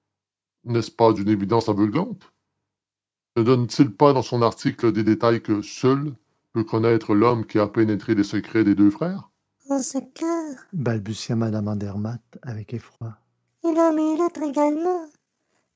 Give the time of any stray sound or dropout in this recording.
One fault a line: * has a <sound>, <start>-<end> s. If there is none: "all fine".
* has a dropout, 13.0-13.0 s